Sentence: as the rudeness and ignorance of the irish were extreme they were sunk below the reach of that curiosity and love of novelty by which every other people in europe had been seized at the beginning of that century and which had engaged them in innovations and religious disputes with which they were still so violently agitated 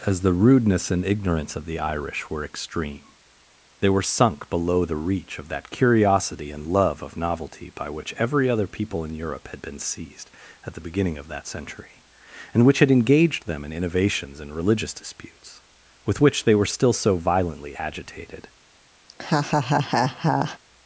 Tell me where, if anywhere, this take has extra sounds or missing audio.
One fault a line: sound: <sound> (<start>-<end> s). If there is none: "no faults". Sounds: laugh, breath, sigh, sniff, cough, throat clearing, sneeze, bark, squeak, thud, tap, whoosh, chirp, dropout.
sound: laugh (19.1-20.6 s)